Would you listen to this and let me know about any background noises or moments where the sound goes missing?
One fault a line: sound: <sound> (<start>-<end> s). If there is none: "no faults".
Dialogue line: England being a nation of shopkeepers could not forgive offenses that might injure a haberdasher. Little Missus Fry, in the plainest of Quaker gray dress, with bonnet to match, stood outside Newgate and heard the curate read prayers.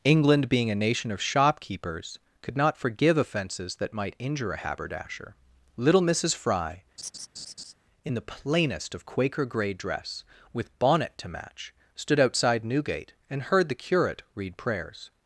sound: laugh (7.0-7.7 s)